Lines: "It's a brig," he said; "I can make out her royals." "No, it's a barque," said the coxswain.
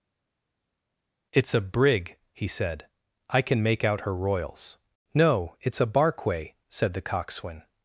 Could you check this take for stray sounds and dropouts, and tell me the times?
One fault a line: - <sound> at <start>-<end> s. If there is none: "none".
none